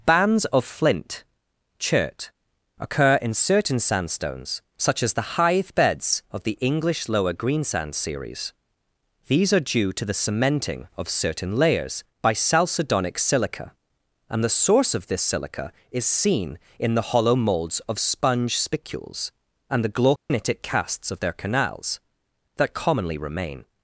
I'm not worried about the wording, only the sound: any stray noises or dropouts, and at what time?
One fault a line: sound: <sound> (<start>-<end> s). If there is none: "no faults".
sound: dropout (20.2-20.3 s)